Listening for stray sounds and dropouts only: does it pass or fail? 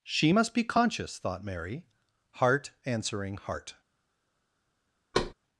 fail